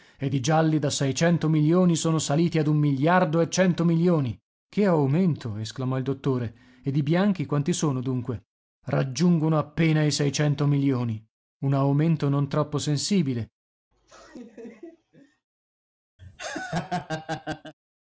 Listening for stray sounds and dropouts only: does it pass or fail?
fail